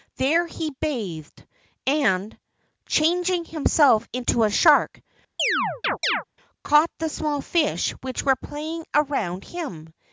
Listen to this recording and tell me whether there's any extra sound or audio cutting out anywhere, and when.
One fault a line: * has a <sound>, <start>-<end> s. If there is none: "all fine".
* has a chirp, 5.4-6.2 s